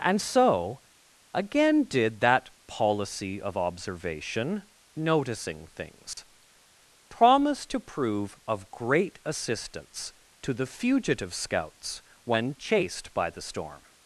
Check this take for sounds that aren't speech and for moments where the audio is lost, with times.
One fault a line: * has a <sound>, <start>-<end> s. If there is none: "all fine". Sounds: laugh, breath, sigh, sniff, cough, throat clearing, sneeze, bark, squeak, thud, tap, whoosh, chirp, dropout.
* has a dropout, 6.1-6.2 s